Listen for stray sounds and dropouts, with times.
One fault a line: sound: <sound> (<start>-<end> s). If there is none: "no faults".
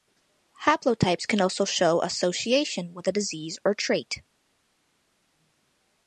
no faults